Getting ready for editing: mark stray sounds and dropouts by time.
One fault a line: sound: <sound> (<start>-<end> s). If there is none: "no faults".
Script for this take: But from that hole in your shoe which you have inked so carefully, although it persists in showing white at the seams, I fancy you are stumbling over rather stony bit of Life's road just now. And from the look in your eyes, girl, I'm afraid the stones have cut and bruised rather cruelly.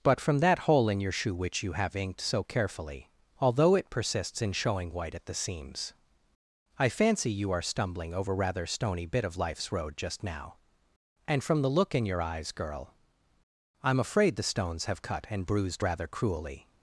no faults